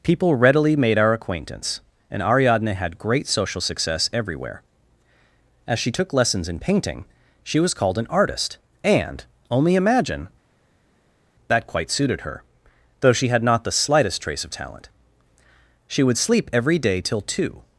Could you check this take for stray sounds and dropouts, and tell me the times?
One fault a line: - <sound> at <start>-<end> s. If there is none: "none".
none